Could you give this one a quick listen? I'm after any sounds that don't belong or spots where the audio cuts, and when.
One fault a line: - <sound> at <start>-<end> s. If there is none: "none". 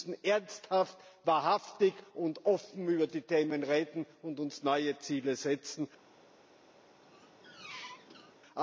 - squeak at 7.0-8.3 s